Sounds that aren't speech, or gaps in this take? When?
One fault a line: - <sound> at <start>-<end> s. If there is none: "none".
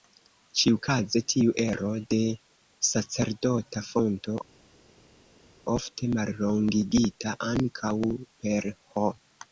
none